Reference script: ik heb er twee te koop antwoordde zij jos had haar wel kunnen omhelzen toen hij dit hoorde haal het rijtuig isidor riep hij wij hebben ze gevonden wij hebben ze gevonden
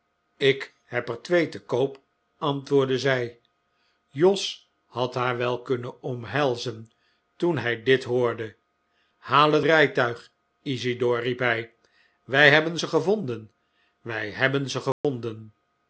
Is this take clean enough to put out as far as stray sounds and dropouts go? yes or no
no